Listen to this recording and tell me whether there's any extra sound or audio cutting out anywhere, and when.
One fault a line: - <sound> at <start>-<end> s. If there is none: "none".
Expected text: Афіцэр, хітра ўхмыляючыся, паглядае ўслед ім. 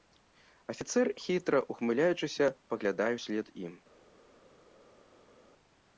none